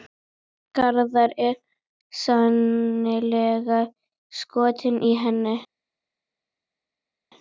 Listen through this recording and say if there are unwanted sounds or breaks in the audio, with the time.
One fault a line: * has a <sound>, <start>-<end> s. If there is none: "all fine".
all fine